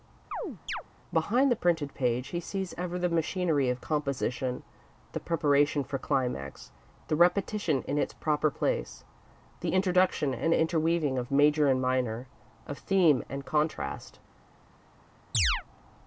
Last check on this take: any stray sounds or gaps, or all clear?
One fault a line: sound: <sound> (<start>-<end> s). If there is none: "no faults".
sound: chirp (0.3-0.8 s)
sound: chirp (15.3-15.6 s)